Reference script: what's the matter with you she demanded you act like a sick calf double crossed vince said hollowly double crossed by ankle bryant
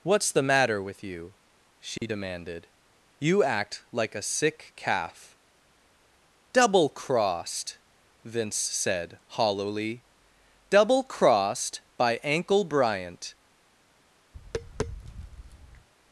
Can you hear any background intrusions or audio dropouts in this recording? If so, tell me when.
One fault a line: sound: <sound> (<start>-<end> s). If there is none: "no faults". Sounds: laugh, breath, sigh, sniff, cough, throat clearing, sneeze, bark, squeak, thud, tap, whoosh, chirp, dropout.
sound: dropout (2.0-2.0 s)
sound: tap (14.3-15.9 s)